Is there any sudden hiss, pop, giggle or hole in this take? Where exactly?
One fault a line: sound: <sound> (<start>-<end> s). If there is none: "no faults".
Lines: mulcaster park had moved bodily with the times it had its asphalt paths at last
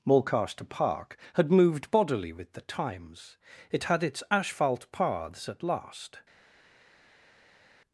no faults